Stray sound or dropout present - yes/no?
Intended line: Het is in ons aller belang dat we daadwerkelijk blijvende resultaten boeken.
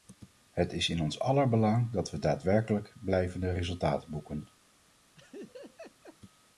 yes